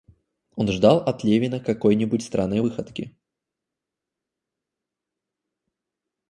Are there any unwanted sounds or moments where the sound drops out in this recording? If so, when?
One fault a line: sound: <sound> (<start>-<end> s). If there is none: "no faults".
no faults